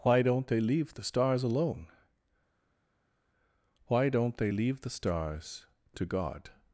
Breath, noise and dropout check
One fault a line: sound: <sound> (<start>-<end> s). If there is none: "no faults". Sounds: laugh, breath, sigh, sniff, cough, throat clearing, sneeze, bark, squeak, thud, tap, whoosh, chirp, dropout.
no faults